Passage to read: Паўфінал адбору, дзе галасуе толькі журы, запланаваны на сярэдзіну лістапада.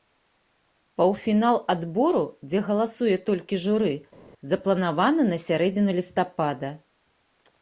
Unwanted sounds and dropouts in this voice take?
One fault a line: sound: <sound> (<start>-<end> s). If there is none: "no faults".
no faults